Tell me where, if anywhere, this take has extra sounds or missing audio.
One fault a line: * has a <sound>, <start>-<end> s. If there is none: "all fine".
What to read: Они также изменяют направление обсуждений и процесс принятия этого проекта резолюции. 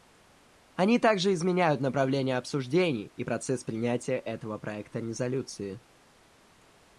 all fine